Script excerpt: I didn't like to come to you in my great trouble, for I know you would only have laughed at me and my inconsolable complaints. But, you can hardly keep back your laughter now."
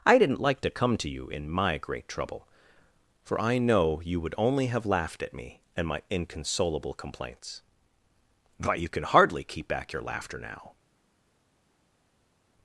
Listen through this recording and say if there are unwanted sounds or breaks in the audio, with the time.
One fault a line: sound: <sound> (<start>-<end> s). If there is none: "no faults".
no faults